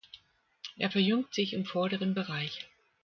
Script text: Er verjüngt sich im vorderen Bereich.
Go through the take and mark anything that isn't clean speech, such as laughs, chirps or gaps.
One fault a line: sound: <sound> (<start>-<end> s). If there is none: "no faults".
no faults